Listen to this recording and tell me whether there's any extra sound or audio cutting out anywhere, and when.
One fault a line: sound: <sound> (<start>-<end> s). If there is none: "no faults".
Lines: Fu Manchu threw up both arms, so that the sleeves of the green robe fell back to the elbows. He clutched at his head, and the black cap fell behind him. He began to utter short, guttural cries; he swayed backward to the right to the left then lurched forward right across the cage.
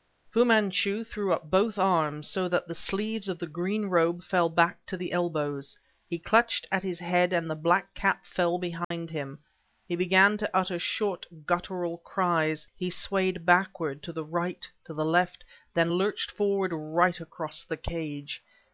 sound: dropout (8.8-8.9 s)